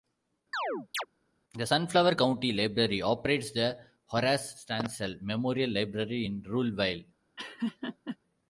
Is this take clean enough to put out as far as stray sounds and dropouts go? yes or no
no